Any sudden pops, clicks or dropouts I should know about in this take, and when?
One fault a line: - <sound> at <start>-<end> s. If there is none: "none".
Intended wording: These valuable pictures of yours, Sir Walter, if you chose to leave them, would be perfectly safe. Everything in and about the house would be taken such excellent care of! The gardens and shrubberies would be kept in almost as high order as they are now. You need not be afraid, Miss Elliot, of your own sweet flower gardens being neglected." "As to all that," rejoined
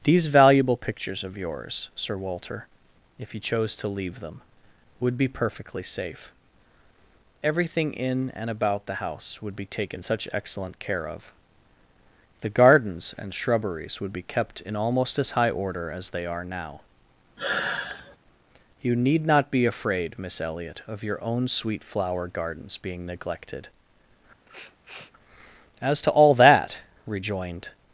- sigh at 17.4-18.2 s
- sniff at 24.5-25.1 s